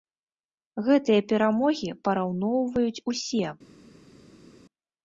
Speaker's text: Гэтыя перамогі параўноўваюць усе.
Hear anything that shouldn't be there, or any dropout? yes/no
no